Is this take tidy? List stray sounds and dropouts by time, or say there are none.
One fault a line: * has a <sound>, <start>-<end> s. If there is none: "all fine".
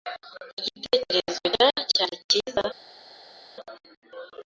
all fine